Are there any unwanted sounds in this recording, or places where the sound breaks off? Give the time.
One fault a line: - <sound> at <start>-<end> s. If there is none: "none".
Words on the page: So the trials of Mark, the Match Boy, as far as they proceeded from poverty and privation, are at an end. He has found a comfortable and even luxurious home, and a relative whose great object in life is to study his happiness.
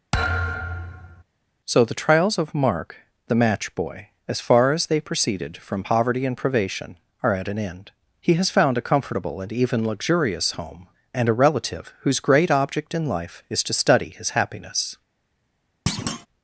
- thud at 0.1-1.2 s
- thud at 15.9-16.3 s